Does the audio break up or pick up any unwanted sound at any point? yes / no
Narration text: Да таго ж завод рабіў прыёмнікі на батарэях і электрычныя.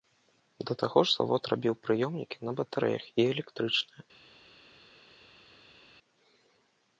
no